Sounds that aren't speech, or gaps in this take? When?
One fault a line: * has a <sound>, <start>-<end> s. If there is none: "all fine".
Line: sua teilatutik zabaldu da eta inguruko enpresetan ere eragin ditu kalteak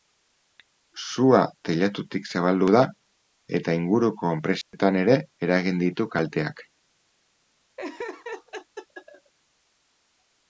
* has a dropout, 4.6-4.7 s
* has a laugh, 7.8-9.3 s